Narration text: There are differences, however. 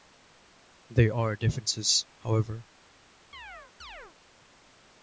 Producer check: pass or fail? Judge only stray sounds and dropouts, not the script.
fail